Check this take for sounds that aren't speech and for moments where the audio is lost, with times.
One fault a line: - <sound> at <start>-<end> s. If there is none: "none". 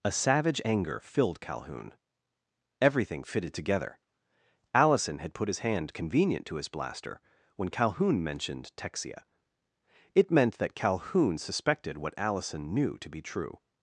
none